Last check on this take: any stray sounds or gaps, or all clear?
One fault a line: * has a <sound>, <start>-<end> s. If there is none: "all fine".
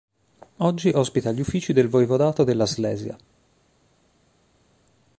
all fine